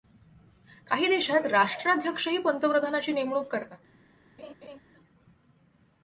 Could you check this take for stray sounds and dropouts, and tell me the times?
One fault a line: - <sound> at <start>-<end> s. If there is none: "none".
- laugh at 4.4-4.8 s